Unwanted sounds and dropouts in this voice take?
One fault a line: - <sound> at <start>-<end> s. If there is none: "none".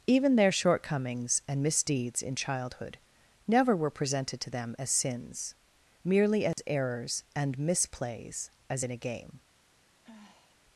- dropout at 6.5-6.6 s
- sigh at 10.0-10.6 s